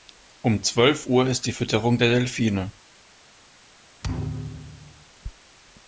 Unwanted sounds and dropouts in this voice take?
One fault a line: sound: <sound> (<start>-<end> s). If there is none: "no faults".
sound: thud (4.0-5.1 s)